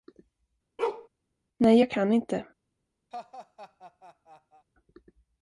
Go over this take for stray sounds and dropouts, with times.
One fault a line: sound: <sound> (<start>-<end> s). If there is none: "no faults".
sound: bark (0.8-1.1 s)
sound: laugh (3.1-4.7 s)